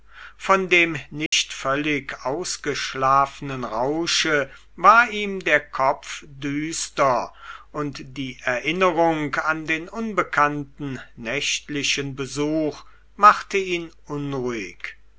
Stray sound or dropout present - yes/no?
yes